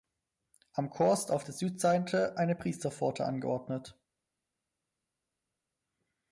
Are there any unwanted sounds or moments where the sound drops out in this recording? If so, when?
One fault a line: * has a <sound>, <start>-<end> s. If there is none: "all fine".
all fine